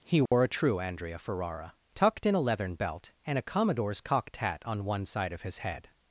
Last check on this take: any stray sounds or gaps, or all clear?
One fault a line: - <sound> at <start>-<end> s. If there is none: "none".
- dropout at 0.3-0.3 s